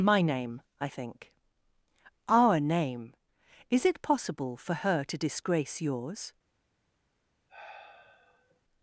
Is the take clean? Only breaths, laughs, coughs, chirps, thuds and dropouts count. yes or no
no